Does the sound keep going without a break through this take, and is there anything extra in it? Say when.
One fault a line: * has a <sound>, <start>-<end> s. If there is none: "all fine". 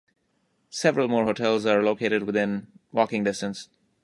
all fine